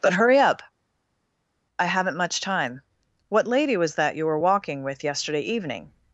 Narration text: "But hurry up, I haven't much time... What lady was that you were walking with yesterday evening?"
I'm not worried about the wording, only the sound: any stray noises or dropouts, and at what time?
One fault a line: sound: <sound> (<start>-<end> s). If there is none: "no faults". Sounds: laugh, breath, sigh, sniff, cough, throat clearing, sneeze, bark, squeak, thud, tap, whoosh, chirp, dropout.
no faults